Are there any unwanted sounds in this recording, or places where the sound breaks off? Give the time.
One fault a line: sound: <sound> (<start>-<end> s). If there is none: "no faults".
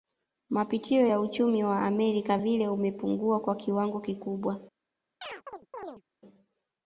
sound: chirp (5.2-6.0 s)